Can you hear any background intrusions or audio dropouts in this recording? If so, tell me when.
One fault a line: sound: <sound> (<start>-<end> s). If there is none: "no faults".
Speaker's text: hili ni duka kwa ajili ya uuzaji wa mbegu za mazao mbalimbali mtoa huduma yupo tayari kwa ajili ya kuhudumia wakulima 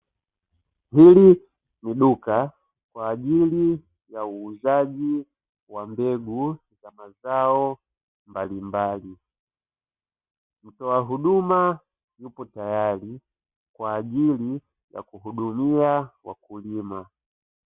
no faults